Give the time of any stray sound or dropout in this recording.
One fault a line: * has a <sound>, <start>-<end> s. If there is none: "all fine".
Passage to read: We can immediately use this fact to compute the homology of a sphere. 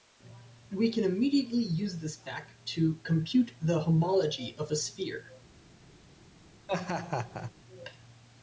* has a laugh, 6.7-7.5 s